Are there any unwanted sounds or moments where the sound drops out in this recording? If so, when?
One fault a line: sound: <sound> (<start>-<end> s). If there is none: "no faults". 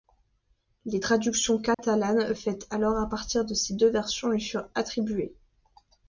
sound: dropout (1.7-1.8 s)